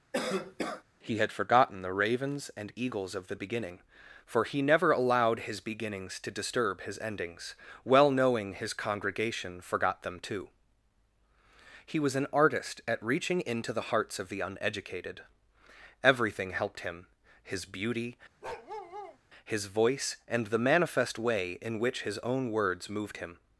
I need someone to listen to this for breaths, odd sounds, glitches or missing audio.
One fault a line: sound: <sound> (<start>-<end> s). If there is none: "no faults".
sound: cough (0.1-0.8 s)
sound: bark (18.4-19.2 s)